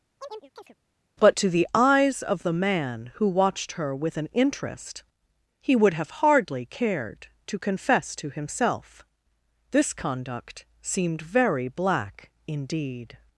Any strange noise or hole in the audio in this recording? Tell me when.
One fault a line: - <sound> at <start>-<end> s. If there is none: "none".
- chirp at 0.2-0.8 s